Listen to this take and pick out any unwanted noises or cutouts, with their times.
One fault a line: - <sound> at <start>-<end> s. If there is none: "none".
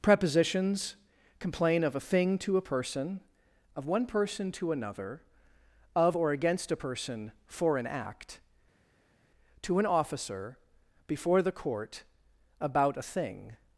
none